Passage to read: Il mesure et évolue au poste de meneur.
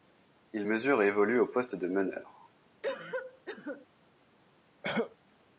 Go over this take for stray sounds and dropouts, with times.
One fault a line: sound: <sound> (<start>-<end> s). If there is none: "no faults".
sound: cough (2.8-3.9 s)
sound: cough (4.8-5.2 s)